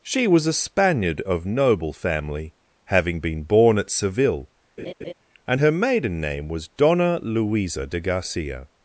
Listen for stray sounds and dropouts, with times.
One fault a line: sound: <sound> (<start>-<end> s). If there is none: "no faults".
sound: laugh (4.8-5.1 s)